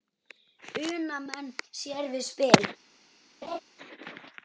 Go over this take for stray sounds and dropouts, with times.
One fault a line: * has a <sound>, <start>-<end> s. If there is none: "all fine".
* has a laugh, 3.4-3.6 s